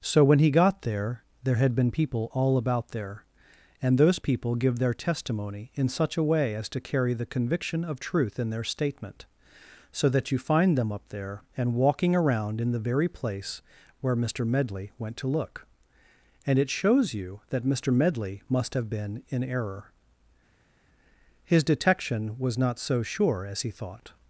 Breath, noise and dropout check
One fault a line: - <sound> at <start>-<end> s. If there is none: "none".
none